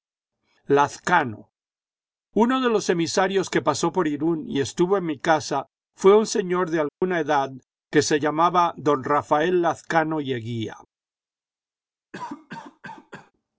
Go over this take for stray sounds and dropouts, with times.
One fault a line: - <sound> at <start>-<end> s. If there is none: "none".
- dropout at 6.9-7.0 s
- cough at 12.1-13.3 s